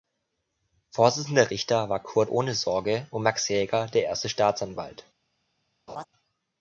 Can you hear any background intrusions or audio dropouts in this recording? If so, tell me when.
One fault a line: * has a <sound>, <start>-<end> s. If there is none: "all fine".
* has a laugh, 5.9-6.0 s